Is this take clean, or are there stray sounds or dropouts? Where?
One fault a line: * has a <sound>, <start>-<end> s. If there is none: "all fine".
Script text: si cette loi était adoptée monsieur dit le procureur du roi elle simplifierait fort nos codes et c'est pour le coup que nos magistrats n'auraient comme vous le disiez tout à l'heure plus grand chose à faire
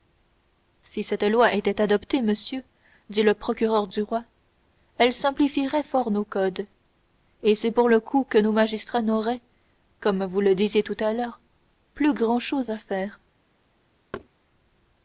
* has a thud, 14.1-14.3 s